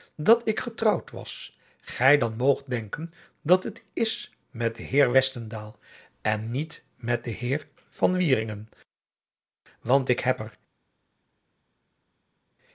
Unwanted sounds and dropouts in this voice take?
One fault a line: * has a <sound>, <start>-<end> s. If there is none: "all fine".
all fine